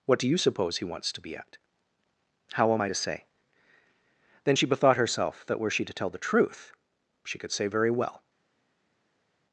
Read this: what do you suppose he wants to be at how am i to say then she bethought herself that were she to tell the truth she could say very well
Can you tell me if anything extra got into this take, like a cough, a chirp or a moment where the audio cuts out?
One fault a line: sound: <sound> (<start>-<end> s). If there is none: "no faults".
no faults